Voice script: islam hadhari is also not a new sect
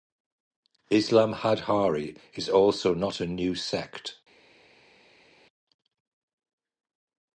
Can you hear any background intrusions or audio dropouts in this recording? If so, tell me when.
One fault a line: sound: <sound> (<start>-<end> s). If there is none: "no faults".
no faults